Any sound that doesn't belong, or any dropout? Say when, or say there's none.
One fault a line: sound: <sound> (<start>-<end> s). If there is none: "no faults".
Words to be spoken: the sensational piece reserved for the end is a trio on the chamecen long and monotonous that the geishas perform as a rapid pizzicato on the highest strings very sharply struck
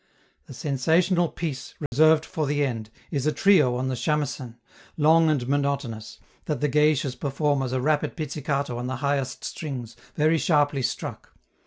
sound: dropout (1.9-1.9 s)